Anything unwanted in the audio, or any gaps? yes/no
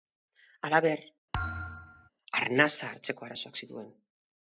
yes